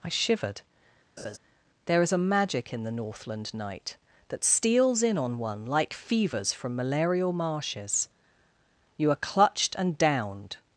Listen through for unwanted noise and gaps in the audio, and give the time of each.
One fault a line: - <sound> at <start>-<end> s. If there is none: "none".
- laugh at 1.2-1.4 s